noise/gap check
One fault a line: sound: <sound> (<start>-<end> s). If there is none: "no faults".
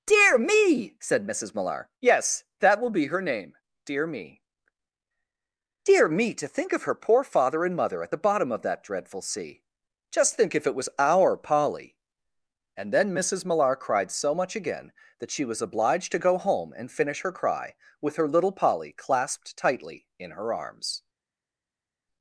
no faults